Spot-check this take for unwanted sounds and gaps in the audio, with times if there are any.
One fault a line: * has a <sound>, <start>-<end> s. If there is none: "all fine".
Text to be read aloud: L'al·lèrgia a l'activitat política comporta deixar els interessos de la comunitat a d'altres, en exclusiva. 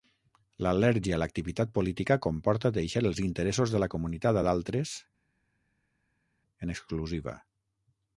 all fine